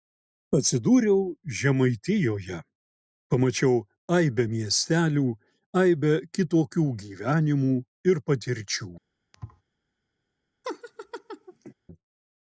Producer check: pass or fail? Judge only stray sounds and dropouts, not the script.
fail